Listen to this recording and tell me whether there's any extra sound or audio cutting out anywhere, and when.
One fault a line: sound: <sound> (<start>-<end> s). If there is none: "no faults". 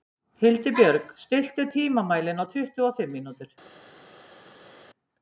no faults